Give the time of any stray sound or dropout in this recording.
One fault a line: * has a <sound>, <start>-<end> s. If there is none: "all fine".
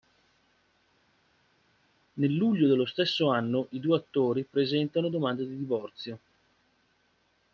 all fine